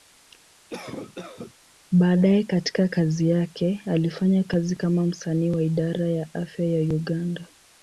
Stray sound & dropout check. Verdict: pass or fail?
fail